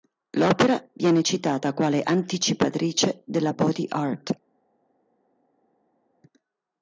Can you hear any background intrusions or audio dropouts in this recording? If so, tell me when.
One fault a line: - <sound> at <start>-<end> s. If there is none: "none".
none